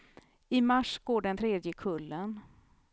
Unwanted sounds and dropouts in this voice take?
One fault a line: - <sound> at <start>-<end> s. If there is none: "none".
none